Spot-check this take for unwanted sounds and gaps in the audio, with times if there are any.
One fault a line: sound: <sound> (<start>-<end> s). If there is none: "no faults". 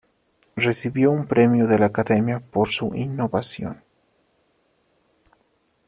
no faults